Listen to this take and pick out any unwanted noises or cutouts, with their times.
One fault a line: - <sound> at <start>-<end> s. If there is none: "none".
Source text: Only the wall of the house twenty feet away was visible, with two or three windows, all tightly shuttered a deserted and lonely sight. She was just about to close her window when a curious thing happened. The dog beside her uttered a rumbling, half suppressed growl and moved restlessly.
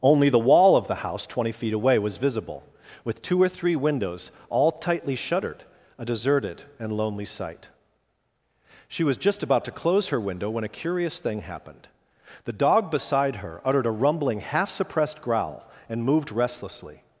none